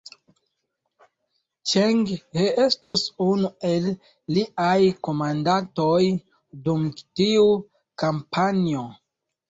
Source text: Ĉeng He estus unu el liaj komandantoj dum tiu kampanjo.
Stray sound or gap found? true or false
true